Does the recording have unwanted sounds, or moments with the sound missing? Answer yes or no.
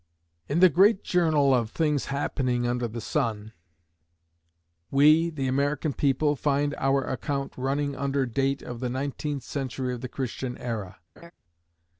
yes